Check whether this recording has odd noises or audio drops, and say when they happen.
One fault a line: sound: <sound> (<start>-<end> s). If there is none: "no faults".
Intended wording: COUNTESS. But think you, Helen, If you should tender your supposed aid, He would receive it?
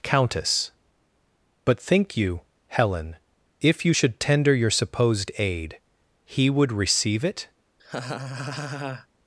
sound: laugh (7.8-9.1 s)